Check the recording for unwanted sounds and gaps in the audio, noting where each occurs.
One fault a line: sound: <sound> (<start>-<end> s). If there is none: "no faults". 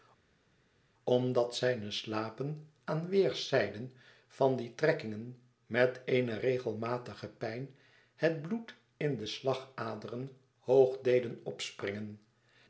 no faults